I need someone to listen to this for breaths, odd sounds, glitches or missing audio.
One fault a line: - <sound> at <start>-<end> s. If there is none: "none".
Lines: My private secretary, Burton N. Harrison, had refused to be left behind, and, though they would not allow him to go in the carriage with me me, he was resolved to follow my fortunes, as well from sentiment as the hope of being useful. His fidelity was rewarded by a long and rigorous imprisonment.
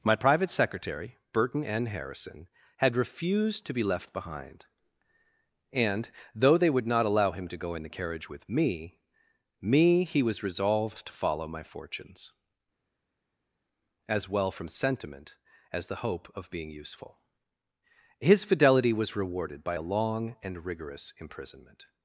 none